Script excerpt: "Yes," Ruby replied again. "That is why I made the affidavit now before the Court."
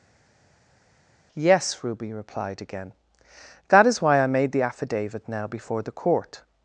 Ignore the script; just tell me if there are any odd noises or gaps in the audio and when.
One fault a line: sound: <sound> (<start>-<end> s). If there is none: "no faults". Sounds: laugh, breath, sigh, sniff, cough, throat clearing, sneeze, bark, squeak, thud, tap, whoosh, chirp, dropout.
no faults